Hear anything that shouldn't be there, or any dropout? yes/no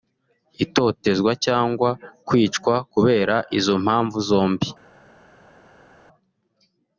no